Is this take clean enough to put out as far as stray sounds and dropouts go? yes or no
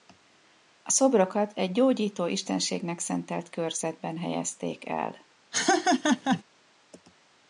no